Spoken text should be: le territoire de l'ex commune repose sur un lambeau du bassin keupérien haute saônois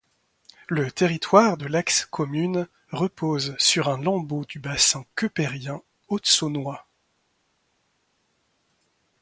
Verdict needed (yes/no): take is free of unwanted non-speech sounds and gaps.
yes